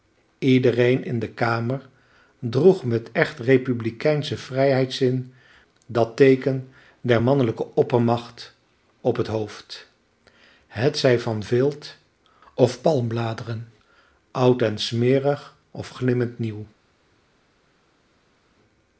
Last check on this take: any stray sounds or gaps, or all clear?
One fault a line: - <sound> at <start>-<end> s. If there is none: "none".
none